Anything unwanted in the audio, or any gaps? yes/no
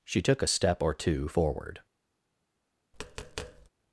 yes